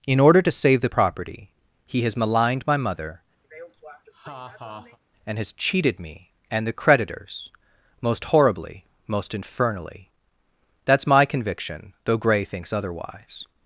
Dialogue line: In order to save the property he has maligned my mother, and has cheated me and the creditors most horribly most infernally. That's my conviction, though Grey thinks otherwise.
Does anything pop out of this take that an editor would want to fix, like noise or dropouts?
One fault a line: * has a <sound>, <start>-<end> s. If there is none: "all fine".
* has a laugh, 3.4-5.0 s